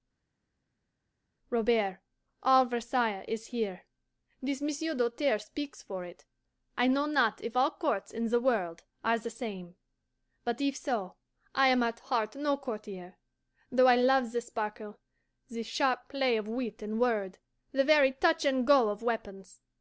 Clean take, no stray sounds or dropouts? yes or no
yes